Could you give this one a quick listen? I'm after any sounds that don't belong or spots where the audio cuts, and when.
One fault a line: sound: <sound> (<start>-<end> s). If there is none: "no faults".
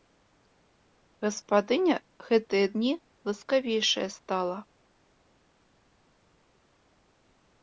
no faults